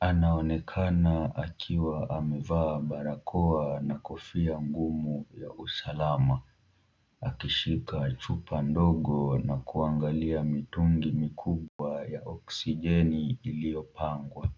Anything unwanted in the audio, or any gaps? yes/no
yes